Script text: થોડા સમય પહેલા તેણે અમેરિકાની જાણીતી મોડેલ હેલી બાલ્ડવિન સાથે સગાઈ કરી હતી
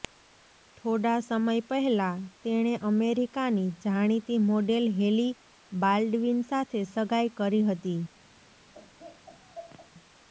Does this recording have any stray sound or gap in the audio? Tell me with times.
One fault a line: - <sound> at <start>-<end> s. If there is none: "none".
- laugh at 8.7-9.9 s